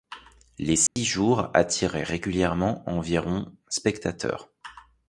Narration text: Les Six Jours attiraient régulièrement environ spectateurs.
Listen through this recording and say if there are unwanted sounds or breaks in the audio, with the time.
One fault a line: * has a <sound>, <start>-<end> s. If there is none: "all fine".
* has a dropout, 0.9-1.0 s